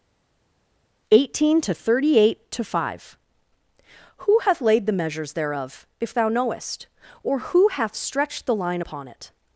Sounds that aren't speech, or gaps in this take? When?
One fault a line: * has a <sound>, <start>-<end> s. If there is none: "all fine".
all fine